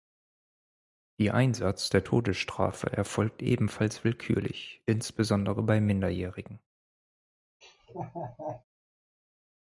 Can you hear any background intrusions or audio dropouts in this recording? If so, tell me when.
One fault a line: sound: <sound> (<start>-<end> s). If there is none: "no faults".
sound: laugh (7.6-8.6 s)